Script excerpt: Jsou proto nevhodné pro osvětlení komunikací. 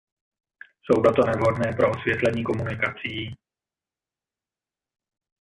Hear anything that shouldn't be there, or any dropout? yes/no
no